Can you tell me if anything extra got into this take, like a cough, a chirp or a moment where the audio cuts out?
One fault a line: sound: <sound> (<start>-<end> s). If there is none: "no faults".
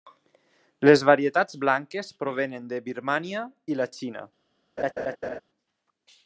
sound: laugh (4.8-5.4 s)